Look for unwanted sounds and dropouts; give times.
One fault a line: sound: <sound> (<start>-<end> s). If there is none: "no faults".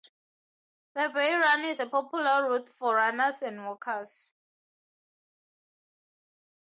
no faults